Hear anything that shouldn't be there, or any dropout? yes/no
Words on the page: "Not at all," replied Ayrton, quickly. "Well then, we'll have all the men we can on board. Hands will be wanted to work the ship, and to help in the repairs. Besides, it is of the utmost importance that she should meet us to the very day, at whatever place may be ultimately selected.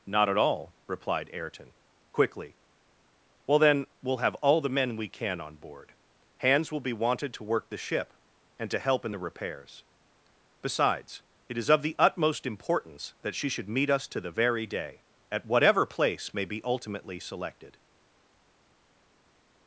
no